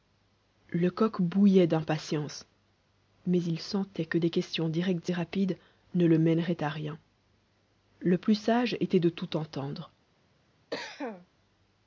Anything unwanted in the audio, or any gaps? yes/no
yes